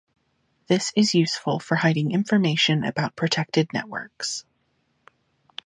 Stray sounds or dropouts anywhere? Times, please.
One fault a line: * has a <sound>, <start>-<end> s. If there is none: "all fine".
all fine